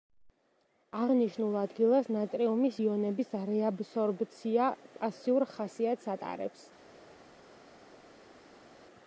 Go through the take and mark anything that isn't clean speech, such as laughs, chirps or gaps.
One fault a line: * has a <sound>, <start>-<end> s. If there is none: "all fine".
all fine